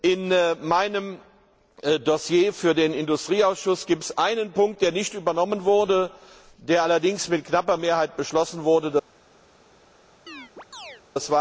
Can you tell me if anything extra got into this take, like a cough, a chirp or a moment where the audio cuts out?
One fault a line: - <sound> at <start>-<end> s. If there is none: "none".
- chirp at 10.3-11.0 s